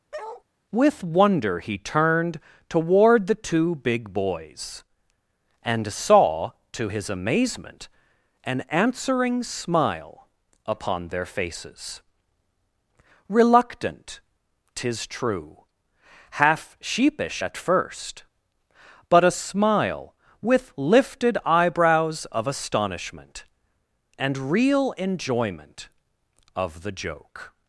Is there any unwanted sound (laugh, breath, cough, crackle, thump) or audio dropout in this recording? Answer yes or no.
yes